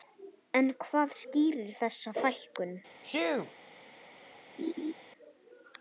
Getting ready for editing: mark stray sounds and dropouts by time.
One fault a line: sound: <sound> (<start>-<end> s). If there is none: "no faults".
sound: sneeze (3.0-3.5 s)
sound: laugh (4.6-4.9 s)